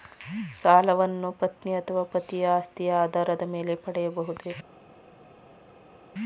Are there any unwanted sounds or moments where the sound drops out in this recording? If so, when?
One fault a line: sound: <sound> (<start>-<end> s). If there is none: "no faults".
no faults